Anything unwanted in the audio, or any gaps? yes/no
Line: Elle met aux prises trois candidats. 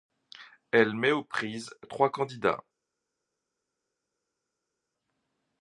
no